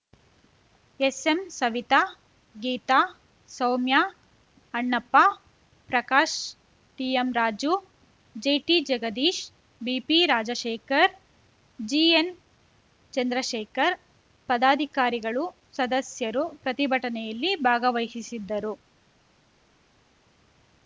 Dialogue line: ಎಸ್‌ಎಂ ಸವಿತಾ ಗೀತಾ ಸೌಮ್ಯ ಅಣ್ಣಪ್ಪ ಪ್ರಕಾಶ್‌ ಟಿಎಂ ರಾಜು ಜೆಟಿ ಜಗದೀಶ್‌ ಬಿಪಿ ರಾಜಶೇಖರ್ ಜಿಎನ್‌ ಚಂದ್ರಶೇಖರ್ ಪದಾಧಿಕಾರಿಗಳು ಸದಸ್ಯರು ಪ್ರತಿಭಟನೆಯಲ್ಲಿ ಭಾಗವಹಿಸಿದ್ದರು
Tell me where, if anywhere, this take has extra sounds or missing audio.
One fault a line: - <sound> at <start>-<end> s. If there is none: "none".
none